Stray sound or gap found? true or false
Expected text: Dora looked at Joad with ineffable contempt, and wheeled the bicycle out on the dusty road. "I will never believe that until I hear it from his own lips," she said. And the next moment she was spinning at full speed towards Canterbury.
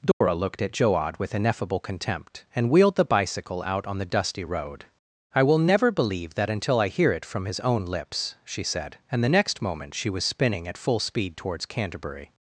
true